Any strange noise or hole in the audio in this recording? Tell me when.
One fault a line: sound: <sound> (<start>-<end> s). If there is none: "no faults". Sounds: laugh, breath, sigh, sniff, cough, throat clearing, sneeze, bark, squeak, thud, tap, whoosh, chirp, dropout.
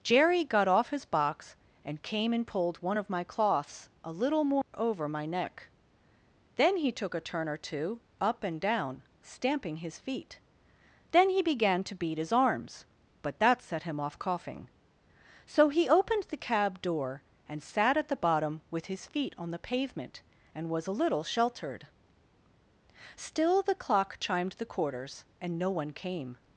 sound: dropout (4.6-4.7 s)